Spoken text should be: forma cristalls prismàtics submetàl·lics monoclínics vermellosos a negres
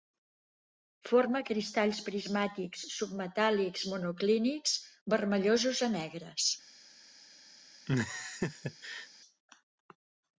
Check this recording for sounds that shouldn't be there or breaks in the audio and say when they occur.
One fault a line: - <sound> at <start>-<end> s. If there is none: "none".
- laugh at 7.9-9.1 s